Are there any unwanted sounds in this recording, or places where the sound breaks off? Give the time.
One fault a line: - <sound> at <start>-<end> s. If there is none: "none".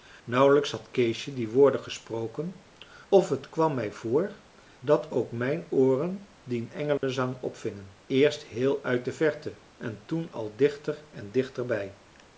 - dropout at 7.0-7.0 s